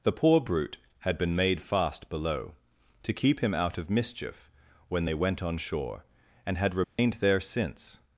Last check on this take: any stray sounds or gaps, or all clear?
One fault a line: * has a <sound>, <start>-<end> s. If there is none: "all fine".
* has a dropout, 6.8-7.0 s